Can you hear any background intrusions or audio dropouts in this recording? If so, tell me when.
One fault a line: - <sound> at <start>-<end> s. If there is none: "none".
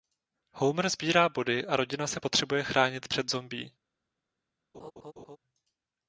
- laugh at 4.7-5.4 s